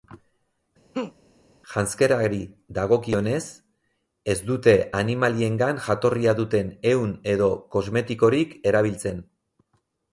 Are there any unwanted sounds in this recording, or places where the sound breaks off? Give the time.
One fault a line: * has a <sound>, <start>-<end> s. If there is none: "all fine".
* has a laugh, 0.9-1.1 s